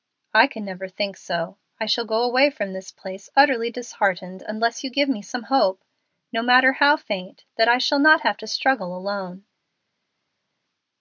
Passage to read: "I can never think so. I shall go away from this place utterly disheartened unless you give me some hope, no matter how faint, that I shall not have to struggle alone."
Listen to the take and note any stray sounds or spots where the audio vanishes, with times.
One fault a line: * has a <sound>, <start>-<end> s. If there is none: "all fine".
all fine